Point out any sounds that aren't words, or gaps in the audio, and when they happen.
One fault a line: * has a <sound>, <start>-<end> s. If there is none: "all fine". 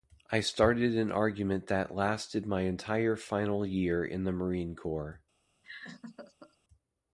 * has a laugh, 5.6-6.6 s